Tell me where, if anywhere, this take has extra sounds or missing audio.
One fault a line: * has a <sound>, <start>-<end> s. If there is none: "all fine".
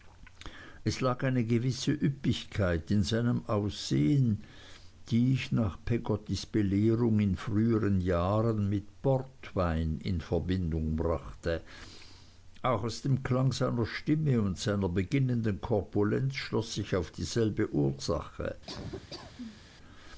* has a laugh, 18.7-19.7 s